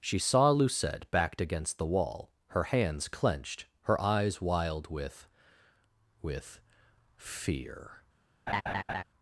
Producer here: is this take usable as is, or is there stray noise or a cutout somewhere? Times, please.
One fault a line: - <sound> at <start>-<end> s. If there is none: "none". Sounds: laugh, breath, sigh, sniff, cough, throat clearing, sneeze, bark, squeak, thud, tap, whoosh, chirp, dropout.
- laugh at 8.5-9.0 s